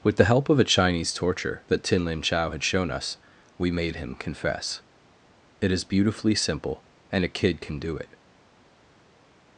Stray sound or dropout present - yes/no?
no